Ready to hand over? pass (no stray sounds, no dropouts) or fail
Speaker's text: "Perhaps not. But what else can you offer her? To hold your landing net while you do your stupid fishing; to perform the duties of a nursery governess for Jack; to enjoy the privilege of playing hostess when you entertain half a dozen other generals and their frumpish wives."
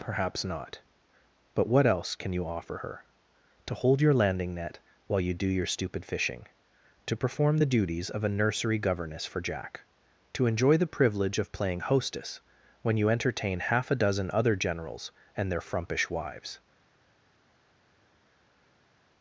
pass